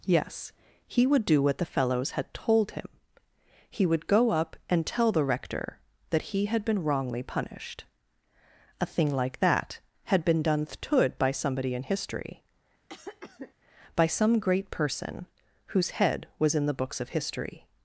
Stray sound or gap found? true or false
true